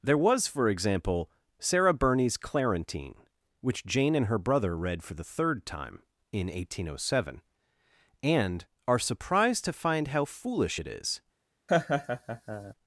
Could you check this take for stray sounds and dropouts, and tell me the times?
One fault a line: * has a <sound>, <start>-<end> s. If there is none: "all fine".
* has a laugh, 11.7-12.7 s